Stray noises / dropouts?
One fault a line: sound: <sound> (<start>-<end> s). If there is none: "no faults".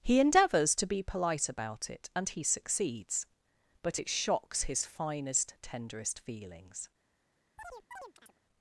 sound: chirp (7.6-8.4 s)